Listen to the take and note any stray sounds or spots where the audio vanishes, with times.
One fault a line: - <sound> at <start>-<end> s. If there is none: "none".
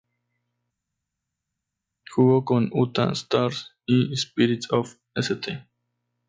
none